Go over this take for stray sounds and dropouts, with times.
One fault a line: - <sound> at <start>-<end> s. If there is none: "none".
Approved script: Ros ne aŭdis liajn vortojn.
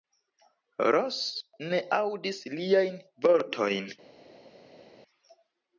none